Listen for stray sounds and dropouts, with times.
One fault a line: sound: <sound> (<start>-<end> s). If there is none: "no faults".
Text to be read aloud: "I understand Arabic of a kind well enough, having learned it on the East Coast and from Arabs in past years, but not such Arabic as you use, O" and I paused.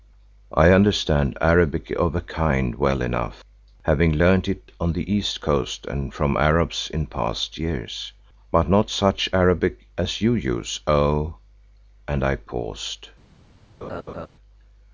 sound: laugh (13.8-14.3 s)